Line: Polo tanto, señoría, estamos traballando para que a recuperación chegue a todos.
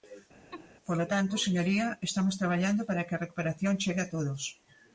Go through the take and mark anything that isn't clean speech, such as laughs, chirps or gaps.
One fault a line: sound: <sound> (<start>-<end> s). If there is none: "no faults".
sound: laugh (0.5-0.7 s)